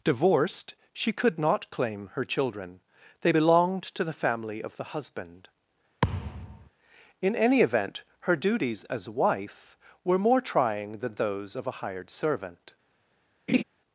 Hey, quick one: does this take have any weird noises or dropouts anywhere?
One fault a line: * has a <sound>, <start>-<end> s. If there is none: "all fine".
* has a thud, 6.0-6.7 s
* has a laugh, 13.5-13.6 s